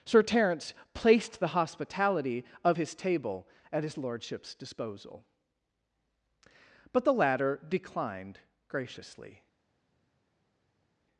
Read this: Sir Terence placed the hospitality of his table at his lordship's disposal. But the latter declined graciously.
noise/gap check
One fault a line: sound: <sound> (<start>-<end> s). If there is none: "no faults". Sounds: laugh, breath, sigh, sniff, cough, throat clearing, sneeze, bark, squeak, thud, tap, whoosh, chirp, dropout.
no faults